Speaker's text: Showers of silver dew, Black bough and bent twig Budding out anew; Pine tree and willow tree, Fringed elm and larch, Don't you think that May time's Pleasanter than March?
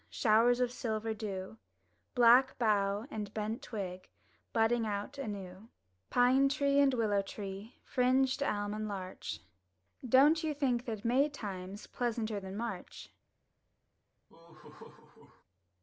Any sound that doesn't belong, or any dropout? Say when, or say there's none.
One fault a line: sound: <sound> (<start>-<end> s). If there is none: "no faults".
sound: laugh (14.3-15.4 s)